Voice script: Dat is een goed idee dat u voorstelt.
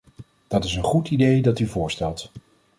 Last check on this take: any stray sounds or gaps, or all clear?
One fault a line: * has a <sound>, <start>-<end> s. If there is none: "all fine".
all fine